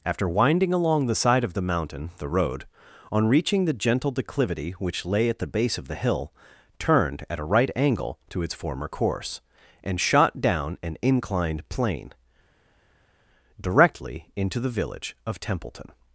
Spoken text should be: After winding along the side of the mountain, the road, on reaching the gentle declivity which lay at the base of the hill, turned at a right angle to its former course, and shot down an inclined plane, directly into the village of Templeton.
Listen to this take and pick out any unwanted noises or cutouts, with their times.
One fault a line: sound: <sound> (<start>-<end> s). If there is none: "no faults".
no faults